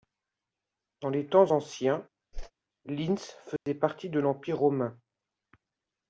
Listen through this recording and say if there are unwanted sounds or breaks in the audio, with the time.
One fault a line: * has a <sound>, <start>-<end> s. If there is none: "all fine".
* has a whoosh, 2.3-2.5 s
* has a dropout, 3.6-3.7 s